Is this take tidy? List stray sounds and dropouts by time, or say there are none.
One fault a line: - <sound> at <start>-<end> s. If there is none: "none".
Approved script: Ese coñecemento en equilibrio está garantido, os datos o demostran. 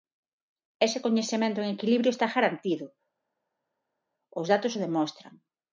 none